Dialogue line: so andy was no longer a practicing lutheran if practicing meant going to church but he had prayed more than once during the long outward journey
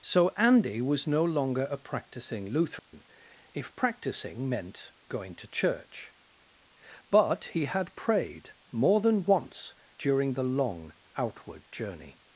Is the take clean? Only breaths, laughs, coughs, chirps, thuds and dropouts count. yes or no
no